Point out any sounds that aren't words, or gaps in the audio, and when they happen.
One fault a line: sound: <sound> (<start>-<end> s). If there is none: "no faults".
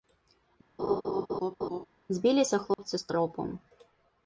sound: laugh (0.8-1.9 s)
sound: dropout (2.7-2.8 s)